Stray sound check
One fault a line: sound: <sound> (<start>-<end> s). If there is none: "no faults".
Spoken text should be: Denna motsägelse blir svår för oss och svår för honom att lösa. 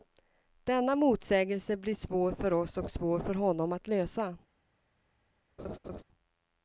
sound: laugh (5.6-6.0 s)